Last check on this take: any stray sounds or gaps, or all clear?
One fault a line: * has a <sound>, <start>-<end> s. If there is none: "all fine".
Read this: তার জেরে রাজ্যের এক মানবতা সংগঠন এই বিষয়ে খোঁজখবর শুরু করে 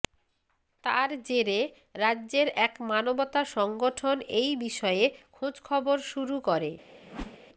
* has a whoosh, 7.0-7.4 s